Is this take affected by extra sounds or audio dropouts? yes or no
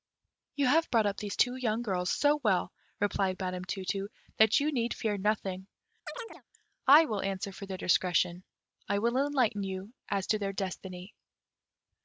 yes